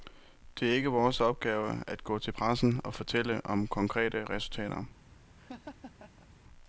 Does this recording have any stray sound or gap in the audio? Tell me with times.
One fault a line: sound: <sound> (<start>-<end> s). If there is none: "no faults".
sound: laugh (5.4-6.3 s)